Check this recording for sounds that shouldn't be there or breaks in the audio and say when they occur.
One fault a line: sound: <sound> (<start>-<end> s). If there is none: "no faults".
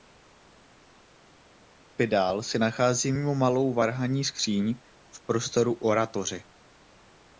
no faults